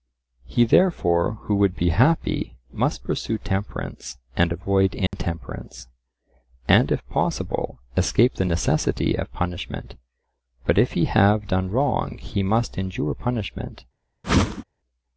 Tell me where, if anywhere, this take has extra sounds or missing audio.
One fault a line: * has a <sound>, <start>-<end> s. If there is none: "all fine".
* has a dropout, 5.1-5.1 s
* has a whoosh, 14.2-14.6 s